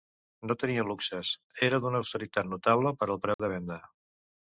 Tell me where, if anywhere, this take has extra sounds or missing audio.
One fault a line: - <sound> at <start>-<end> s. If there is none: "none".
- dropout at 3.3-3.4 s